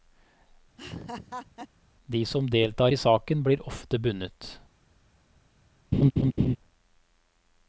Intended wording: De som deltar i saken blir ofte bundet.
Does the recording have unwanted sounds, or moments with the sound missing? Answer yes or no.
yes